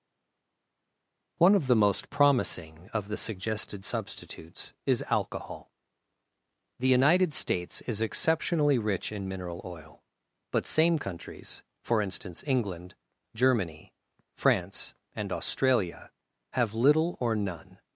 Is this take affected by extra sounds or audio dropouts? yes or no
no